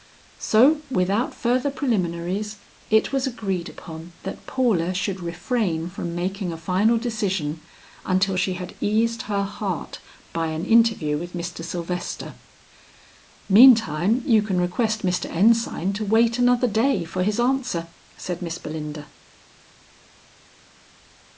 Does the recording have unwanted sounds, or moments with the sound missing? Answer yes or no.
no